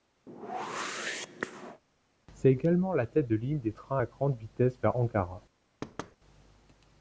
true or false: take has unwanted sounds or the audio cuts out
true